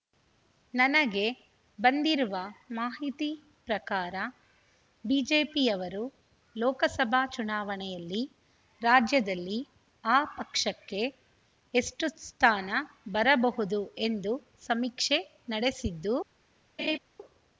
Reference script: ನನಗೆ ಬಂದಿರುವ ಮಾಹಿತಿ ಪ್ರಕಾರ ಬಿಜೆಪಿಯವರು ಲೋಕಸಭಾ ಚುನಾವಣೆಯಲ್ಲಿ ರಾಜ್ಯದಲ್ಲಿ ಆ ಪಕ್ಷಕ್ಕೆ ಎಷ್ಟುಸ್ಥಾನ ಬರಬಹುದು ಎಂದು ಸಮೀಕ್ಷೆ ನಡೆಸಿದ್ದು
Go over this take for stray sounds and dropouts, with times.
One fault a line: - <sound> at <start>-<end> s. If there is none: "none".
- laugh at 16.8-17.0 s